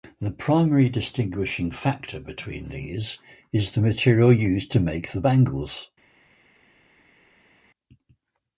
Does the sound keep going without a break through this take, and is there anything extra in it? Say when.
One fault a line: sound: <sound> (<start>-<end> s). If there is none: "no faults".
no faults